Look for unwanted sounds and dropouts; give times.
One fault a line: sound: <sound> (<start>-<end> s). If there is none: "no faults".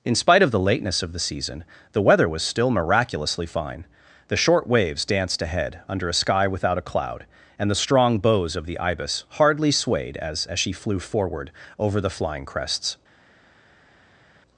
no faults